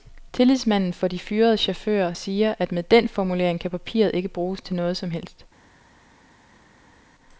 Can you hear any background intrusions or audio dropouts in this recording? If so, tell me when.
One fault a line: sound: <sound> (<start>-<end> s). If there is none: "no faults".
no faults